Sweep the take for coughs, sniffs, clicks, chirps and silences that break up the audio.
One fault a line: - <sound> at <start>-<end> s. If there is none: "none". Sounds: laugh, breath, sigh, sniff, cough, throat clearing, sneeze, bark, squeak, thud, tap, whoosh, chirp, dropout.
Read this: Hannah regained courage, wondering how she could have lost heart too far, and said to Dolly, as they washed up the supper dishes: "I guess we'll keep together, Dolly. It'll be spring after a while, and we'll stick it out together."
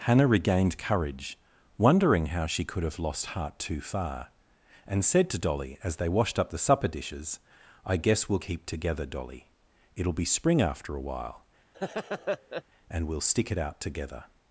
- laugh at 11.7-12.6 s